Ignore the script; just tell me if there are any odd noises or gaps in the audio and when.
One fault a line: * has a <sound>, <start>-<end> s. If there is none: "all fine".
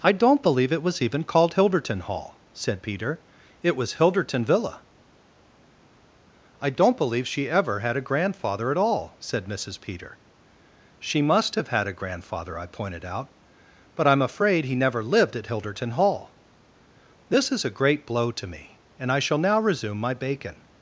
all fine